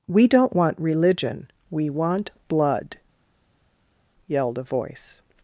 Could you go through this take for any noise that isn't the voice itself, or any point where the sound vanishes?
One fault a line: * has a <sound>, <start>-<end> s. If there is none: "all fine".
all fine